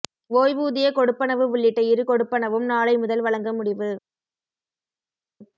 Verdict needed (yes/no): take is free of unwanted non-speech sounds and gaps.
yes